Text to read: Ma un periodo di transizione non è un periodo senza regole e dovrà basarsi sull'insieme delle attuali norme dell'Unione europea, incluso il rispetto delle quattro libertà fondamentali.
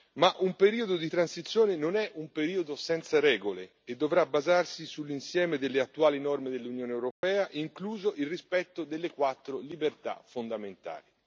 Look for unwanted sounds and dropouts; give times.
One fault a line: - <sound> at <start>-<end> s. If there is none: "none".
- dropout at 7.1-7.2 s